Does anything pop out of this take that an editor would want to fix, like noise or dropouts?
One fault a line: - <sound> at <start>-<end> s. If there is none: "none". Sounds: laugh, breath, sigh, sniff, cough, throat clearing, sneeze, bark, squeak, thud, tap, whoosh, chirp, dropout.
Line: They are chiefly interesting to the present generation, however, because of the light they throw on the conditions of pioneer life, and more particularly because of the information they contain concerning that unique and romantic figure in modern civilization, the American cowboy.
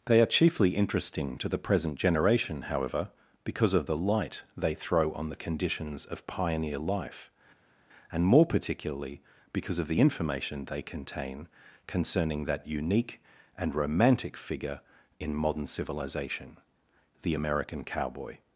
none